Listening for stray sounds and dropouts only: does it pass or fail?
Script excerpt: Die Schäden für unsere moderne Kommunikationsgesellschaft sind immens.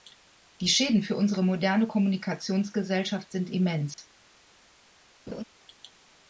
fail